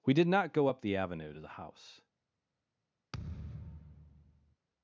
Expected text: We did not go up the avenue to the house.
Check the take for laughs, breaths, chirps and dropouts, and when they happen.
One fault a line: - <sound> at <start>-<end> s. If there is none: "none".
- thud at 3.1-4.6 s